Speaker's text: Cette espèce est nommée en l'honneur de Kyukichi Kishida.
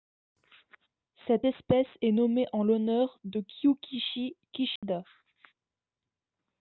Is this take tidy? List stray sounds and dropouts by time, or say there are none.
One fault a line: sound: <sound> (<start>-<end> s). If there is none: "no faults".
sound: dropout (4.8-4.8 s)